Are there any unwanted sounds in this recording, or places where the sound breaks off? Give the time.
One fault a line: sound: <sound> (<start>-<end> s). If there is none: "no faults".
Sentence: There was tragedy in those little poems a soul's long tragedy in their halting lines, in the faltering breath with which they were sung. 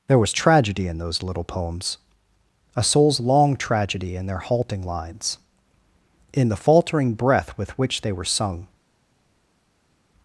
no faults